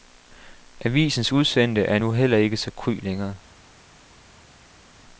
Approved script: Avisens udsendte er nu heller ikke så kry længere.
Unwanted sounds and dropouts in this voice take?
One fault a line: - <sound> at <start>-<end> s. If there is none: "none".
none